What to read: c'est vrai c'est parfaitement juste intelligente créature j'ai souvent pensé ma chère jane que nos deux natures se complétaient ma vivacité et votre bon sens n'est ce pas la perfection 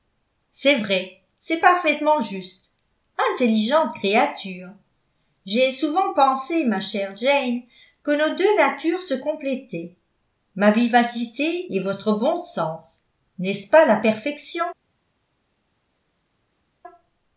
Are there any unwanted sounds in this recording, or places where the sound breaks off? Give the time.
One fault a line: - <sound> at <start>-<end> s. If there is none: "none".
none